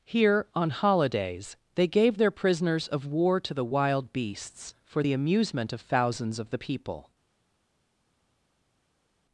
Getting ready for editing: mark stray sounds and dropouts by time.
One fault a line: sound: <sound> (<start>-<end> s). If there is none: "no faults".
no faults